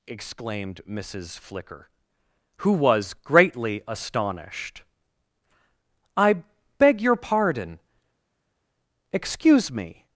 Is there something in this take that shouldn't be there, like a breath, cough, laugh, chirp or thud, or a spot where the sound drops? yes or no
no